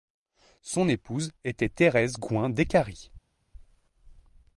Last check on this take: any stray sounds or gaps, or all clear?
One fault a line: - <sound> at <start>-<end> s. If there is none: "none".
none